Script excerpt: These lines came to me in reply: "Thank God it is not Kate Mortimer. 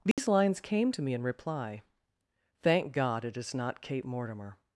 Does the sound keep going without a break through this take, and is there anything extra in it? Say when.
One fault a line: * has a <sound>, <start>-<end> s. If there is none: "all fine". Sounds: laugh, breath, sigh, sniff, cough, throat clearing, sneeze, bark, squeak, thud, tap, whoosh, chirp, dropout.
* has a dropout, 0.1-0.2 s